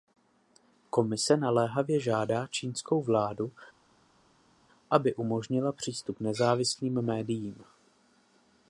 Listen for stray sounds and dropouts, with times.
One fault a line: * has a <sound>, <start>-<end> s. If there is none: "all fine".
all fine